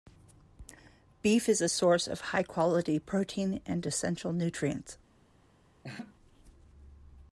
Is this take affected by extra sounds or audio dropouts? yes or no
yes